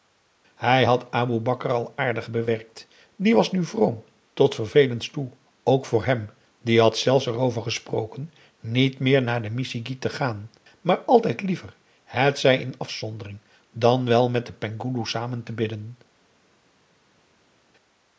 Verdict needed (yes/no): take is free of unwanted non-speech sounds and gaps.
yes